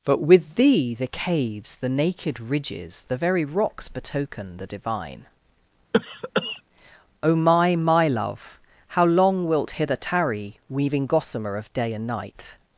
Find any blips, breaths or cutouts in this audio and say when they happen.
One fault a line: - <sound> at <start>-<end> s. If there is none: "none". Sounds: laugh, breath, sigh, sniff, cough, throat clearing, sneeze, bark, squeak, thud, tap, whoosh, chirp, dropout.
- cough at 5.9-6.6 s